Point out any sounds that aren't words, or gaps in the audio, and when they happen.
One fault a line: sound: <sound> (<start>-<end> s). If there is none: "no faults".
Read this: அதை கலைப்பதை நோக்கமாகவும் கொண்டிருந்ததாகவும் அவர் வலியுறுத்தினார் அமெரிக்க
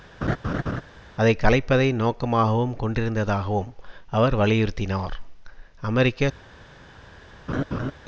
sound: laugh (0.2-0.8 s)
sound: laugh (7.5-7.9 s)